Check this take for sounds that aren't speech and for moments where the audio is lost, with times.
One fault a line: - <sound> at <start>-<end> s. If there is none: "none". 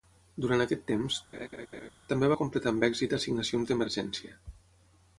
- laugh at 1.3-1.9 s